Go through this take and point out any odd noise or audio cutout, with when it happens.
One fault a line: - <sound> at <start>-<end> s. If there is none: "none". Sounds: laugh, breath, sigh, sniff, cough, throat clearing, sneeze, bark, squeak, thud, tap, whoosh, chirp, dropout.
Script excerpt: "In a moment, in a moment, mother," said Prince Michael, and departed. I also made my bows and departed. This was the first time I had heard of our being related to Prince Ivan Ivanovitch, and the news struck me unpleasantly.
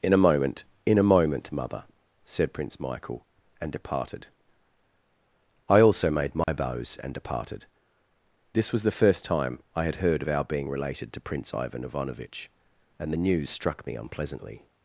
- dropout at 6.4-6.5 s